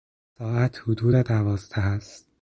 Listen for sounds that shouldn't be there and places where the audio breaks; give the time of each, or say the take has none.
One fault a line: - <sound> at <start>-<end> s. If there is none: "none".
none